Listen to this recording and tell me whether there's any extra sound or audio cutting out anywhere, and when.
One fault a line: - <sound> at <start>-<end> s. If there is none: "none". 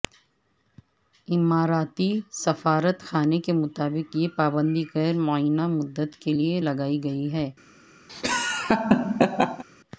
- laugh at 8.1-9.6 s